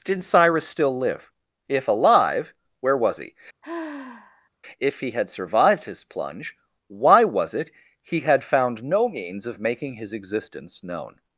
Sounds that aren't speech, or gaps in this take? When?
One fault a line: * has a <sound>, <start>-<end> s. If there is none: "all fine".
* has a sigh, 3.6-4.5 s